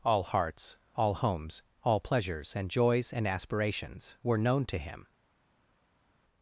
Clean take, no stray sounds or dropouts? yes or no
yes